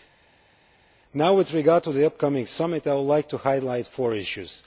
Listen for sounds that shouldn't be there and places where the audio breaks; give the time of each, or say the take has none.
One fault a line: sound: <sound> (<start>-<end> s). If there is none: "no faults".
no faults